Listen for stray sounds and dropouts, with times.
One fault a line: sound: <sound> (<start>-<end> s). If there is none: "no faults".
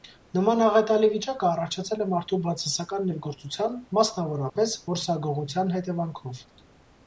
sound: dropout (4.5-4.6 s)